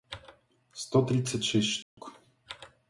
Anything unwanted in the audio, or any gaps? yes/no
yes